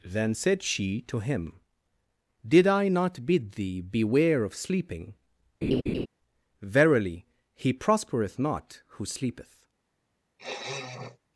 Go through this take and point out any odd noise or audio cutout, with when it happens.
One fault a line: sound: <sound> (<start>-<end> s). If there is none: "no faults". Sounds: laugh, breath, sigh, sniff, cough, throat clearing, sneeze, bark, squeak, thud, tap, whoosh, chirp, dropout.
sound: laugh (5.6-6.1 s)
sound: sniff (10.4-11.2 s)